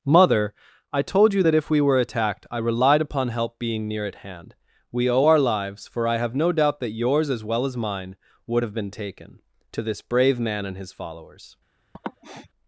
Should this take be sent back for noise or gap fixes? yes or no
yes